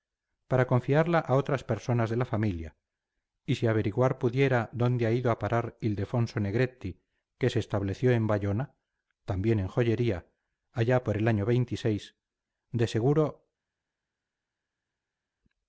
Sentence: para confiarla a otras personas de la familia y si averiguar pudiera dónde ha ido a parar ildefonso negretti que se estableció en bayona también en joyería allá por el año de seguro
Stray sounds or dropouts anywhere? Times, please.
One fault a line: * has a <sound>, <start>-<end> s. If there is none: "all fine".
all fine